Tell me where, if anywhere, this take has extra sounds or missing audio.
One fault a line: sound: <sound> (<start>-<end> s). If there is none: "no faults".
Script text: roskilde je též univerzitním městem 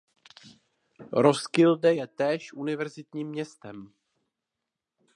no faults